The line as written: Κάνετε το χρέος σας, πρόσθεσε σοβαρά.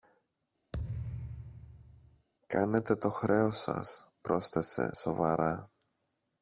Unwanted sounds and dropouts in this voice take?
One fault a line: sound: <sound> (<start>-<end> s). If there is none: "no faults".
sound: thud (0.7-2.3 s)